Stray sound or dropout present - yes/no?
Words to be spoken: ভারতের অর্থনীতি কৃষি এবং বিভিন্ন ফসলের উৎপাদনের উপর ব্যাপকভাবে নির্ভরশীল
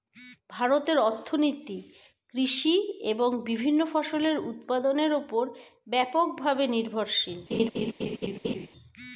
yes